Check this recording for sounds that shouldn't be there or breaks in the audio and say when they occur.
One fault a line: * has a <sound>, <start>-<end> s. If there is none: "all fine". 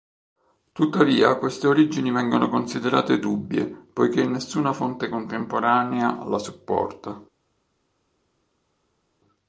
all fine